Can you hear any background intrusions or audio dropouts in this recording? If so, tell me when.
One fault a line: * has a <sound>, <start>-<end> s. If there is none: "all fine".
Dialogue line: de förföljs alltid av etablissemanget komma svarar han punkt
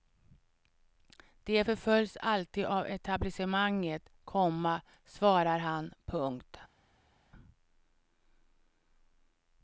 all fine